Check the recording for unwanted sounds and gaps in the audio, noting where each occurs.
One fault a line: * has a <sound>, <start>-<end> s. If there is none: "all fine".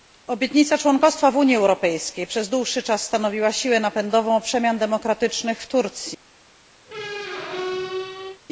* has a squeak, 6.9-8.4 s